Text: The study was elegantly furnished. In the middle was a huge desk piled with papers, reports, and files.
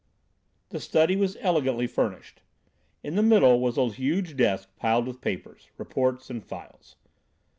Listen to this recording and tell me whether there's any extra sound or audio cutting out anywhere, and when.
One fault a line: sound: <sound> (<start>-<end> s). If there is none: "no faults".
no faults